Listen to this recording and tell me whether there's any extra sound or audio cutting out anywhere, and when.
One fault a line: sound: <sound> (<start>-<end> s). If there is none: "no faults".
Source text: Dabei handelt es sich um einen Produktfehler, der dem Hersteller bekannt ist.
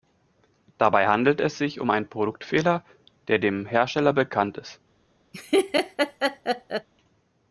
sound: laugh (5.3-6.9 s)